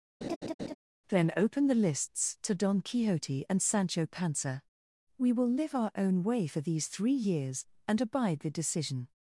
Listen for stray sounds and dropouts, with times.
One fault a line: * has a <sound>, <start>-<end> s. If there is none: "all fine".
* has a laugh, 0.2-0.7 s